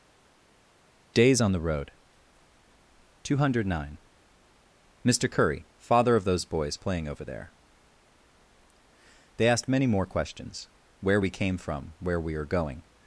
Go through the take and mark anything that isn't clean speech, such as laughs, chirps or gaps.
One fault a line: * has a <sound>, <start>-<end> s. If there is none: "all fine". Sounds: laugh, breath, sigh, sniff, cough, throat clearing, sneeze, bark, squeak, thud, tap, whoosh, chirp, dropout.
all fine